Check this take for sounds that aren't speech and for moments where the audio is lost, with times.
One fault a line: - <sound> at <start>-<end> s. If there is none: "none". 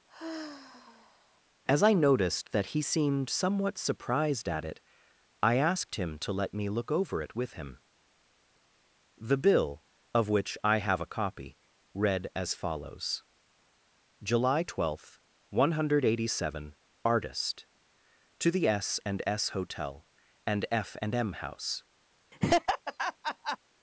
- sigh at 0.1-1.4 s
- laugh at 22.3-23.6 s